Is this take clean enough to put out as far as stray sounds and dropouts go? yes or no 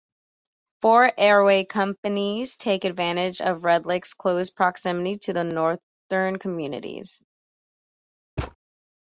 no